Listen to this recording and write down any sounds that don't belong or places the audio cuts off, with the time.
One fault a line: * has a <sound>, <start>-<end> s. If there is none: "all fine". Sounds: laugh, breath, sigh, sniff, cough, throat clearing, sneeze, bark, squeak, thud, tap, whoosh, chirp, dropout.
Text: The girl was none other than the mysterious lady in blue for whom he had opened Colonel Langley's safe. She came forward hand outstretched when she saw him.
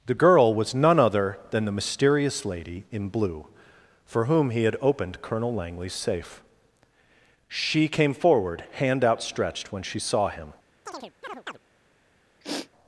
* has a chirp, 10.9-11.6 s
* has a sniff, 12.4-12.7 s